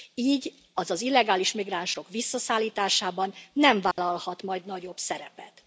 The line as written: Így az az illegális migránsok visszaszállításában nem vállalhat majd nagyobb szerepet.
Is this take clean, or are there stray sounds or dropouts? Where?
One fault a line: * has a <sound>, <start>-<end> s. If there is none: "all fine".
* has a dropout, 3.9-4.0 s